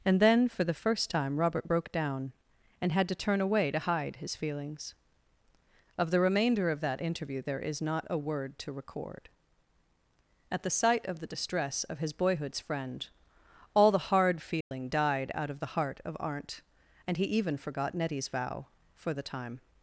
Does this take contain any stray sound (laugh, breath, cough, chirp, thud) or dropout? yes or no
yes